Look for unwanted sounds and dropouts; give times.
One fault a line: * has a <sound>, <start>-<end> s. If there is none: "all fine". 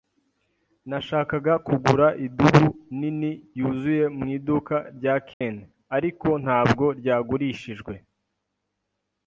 * has a dropout, 5.3-5.4 s